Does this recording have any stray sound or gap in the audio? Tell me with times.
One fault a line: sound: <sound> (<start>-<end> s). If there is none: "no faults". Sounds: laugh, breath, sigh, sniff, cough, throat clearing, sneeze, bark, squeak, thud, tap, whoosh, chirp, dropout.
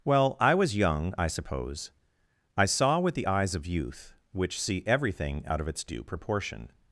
no faults